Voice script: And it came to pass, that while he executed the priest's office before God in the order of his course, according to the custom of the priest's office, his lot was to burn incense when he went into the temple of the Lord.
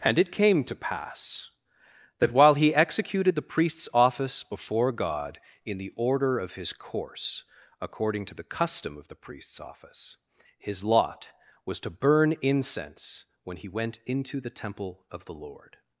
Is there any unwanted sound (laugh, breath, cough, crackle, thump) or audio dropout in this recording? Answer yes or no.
no